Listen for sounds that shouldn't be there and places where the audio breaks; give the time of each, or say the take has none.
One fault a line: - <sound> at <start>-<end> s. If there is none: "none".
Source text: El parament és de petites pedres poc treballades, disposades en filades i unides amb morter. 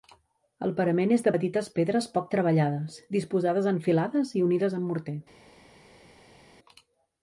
none